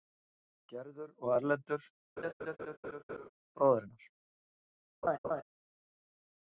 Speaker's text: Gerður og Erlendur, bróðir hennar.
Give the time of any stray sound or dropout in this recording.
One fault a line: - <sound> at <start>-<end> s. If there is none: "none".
- laugh at 2.2-3.3 s
- laugh at 5.0-5.4 s